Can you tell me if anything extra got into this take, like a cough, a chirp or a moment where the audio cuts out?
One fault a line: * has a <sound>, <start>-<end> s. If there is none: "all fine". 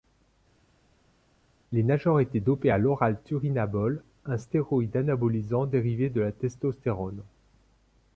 all fine